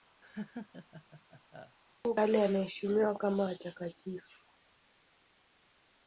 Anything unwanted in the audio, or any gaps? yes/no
yes